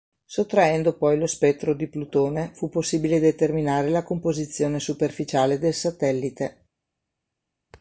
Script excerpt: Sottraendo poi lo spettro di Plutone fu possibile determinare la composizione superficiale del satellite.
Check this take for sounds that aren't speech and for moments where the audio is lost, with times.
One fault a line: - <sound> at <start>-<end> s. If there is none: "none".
none